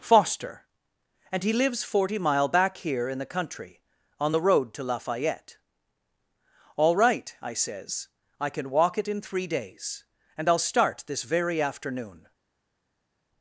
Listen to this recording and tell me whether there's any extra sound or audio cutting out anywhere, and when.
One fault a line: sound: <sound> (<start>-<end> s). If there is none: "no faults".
no faults